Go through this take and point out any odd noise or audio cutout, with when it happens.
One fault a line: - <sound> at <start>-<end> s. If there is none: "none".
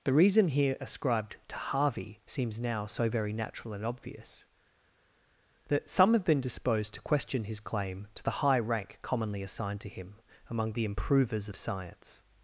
none